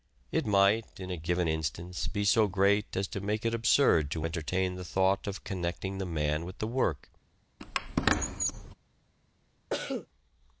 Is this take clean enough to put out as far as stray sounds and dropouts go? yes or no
no